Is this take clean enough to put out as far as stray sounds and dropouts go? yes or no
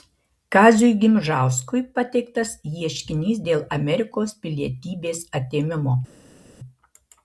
yes